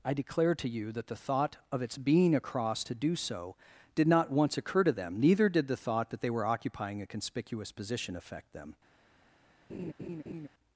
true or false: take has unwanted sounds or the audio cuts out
true